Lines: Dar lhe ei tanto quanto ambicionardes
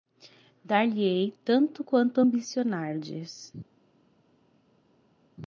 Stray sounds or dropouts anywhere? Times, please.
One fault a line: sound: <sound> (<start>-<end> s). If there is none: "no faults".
no faults